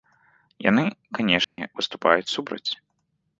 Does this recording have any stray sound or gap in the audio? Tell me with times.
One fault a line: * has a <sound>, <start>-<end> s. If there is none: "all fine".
* has a dropout, 1.4-1.6 s